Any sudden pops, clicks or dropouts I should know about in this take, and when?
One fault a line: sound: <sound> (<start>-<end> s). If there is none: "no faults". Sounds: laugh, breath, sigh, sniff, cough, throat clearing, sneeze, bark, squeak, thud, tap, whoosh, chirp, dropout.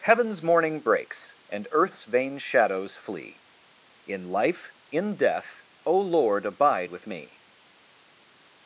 no faults